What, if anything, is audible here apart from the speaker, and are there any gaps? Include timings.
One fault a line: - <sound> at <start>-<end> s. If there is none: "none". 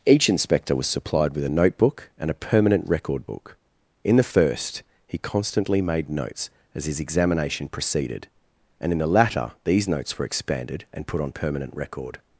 none